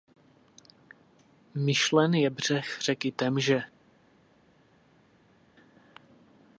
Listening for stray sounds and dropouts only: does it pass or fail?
pass